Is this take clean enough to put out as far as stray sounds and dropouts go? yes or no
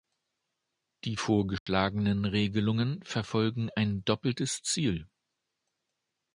no